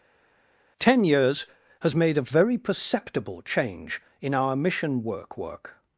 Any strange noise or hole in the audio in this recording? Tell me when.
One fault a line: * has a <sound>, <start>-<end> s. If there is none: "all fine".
all fine